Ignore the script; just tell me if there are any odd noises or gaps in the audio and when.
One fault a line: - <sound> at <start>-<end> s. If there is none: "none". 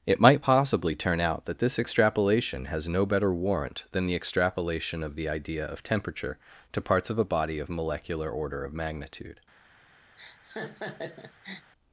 - laugh at 10.2-11.7 s